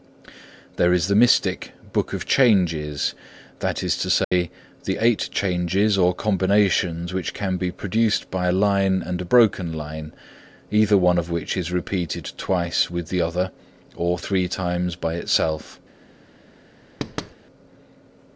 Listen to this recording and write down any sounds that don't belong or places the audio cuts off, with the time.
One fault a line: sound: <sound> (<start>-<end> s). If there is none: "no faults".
sound: dropout (4.2-4.3 s)
sound: thud (17.0-17.3 s)